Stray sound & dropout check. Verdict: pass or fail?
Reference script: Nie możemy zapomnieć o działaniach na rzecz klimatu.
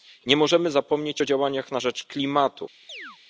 fail